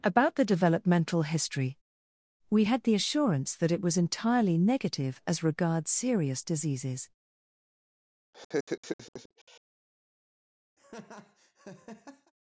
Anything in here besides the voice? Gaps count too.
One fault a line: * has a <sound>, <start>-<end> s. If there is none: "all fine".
* has a laugh, 8.3-9.6 s
* has a laugh, 10.8-12.3 s